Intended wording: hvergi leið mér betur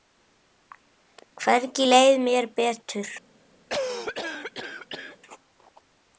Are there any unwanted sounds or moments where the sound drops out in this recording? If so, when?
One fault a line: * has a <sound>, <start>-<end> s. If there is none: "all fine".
* has a cough, 3.7-5.2 s